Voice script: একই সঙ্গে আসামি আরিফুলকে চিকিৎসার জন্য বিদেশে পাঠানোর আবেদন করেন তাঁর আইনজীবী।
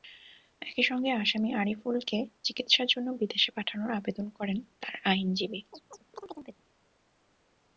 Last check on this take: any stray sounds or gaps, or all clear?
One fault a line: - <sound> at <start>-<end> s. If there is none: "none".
- chirp at 5.7-6.6 s